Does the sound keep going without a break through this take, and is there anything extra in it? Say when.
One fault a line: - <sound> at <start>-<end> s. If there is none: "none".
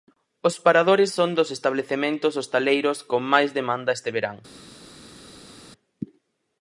none